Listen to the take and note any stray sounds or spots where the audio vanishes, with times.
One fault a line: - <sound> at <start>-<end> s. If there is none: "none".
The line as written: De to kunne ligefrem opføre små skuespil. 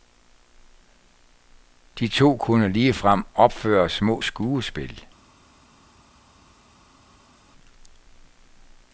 none